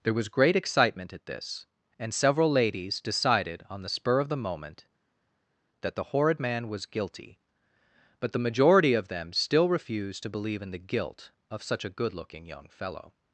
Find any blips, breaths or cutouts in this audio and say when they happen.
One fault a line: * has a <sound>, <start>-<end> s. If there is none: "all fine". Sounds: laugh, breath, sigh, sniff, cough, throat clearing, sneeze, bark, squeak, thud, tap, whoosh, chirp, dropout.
all fine